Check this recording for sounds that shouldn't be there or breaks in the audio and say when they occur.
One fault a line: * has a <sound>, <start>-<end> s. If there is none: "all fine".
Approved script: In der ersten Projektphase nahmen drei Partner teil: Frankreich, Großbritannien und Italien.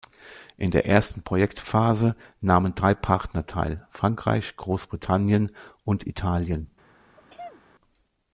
* has a sneeze, 7.2-7.6 s